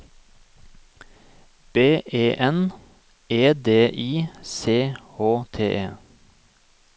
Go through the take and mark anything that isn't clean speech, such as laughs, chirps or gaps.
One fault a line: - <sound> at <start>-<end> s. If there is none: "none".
none